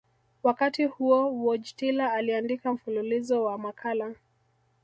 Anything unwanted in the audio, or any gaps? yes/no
no